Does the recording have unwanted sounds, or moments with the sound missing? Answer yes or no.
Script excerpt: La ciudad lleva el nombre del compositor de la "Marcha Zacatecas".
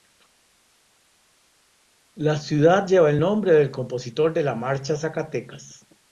no